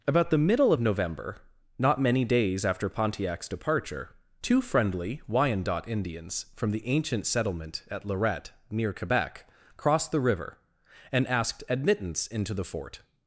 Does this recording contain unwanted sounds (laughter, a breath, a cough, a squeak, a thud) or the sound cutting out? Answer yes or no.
no